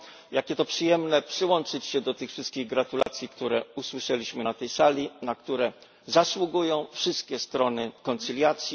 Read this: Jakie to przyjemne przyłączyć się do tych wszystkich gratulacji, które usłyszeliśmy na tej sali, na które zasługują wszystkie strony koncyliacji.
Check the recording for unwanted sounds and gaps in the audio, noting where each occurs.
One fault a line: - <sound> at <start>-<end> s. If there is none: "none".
- dropout at 3.0-3.1 s